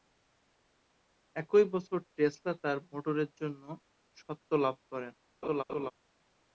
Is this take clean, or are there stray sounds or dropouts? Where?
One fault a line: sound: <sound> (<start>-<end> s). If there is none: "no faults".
sound: laugh (5.4-5.9 s)